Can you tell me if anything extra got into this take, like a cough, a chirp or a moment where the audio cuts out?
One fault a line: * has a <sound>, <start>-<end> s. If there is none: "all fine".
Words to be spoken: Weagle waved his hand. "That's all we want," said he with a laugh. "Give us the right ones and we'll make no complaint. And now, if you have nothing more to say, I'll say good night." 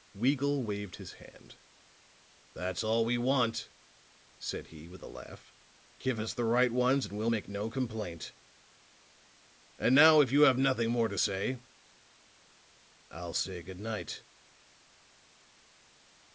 all fine